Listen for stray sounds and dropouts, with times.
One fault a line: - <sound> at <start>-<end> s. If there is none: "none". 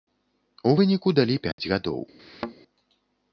- dropout at 1.5-1.6 s
- thud at 2.2-2.5 s